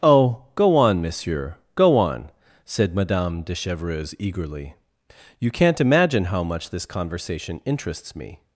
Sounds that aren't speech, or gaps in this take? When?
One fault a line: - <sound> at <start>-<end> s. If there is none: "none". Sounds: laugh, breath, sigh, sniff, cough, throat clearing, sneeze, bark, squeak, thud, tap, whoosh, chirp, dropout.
none